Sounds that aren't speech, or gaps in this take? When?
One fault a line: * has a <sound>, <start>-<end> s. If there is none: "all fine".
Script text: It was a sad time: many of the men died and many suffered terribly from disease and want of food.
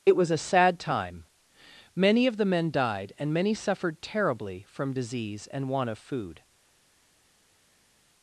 all fine